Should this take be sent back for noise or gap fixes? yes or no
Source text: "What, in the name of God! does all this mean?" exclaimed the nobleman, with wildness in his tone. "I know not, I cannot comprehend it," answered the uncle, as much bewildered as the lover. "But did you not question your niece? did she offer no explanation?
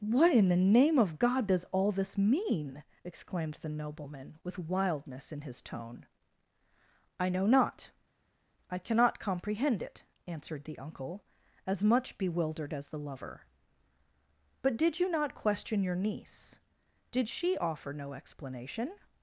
no